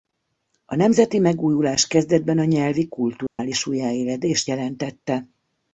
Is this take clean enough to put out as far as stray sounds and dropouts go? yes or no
no